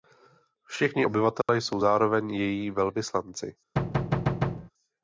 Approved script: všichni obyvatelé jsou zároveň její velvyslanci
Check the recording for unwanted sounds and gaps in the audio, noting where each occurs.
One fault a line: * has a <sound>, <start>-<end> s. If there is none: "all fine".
* has a dropout, 1.4-1.5 s
* has a thud, 3.8-4.7 s